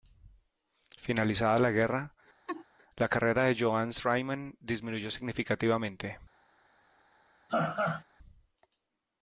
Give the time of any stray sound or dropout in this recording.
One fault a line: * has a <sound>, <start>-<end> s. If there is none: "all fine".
* has a laugh, 2.5-2.6 s
* has a laugh, 7.5-8.0 s